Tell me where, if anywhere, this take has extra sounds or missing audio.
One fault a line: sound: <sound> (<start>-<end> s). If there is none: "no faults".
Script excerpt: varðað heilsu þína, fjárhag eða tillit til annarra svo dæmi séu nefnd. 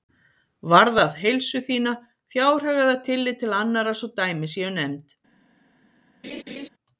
sound: laugh (6.2-6.7 s)